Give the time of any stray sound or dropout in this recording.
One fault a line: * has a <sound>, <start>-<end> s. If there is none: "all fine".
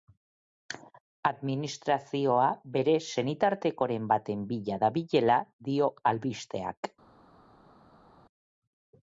all fine